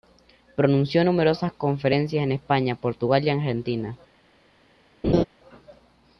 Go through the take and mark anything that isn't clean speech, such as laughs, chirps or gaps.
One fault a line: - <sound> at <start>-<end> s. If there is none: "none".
- laugh at 5.0-5.2 s